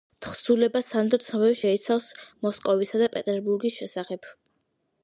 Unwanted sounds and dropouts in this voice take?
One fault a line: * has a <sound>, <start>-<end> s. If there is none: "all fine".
all fine